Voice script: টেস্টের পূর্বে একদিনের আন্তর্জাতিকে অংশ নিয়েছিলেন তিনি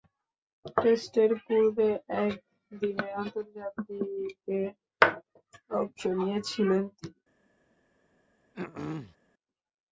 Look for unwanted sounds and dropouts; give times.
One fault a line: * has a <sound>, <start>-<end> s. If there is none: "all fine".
* has a throat clearing, 8.5-9.2 s